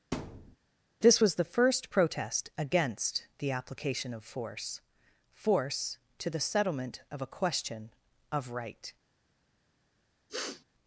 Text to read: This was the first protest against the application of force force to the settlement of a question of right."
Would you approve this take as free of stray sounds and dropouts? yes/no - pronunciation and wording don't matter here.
no